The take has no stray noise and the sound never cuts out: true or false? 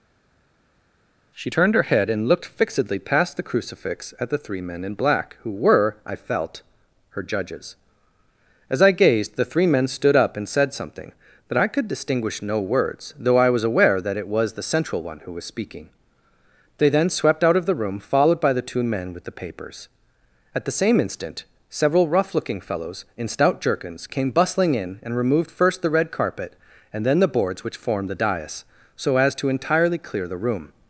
true